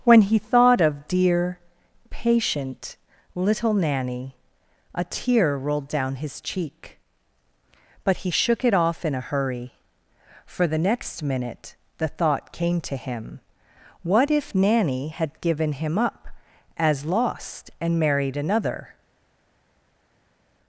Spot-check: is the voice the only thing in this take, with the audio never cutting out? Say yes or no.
yes